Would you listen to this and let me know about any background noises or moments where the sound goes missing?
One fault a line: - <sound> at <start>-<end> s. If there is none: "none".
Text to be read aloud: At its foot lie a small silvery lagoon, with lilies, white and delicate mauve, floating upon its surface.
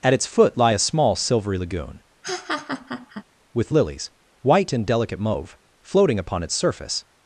- laugh at 2.2-3.2 s